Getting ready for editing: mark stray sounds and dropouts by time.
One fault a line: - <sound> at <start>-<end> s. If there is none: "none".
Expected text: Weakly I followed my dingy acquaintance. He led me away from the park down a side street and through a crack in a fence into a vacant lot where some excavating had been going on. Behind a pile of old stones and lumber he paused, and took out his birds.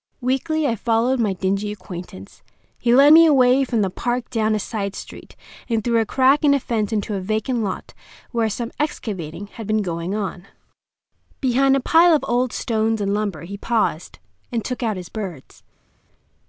none